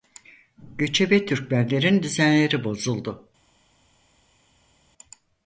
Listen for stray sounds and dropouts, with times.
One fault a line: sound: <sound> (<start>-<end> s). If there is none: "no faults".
no faults